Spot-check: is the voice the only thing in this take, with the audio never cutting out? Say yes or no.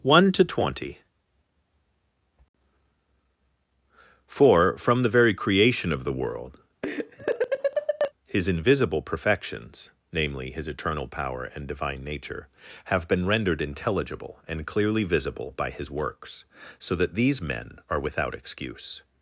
no